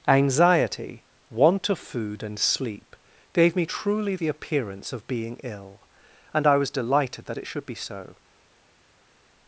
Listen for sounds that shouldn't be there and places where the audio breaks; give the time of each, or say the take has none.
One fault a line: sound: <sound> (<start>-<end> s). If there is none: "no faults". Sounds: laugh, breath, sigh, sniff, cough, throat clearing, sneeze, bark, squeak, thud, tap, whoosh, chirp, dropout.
no faults